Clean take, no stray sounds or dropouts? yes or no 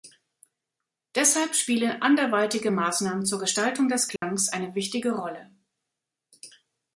no